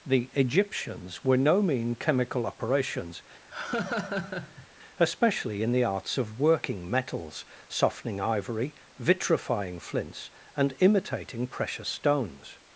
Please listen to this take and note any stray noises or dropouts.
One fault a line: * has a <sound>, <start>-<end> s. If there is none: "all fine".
* has a laugh, 3.5-4.7 s